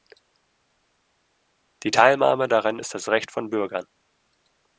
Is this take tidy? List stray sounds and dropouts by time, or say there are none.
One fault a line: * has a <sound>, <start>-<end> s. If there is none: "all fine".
all fine